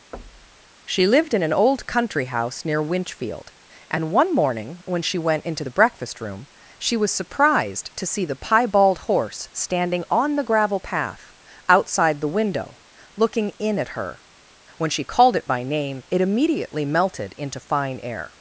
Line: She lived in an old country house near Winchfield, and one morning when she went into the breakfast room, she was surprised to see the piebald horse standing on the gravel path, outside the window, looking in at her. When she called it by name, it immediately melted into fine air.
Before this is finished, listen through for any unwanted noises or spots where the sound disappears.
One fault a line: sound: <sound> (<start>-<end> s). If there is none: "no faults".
sound: thud (0.1-0.7 s)